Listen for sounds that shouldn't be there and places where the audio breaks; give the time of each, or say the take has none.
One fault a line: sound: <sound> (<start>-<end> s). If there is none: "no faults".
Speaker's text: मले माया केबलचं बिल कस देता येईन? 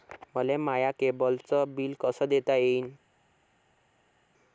no faults